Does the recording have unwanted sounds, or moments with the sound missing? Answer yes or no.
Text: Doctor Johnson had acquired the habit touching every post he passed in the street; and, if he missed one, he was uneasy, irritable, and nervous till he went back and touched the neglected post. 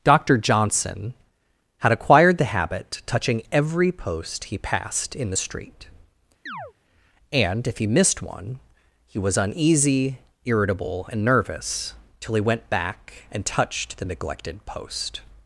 yes